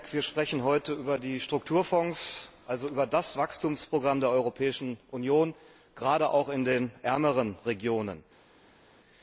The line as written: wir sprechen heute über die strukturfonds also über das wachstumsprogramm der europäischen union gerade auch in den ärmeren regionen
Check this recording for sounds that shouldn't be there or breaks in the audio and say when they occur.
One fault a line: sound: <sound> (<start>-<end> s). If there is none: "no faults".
no faults